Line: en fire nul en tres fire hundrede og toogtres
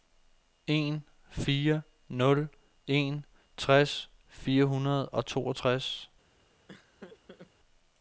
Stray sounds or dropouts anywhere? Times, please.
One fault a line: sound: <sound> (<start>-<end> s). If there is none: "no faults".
sound: laugh (6.7-7.5 s)